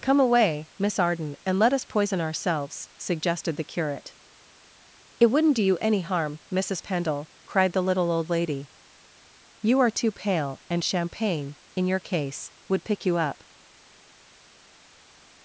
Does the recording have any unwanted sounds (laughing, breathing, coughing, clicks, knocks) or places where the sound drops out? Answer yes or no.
no